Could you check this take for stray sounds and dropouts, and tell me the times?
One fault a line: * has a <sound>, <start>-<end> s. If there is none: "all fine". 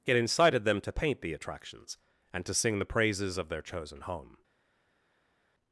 all fine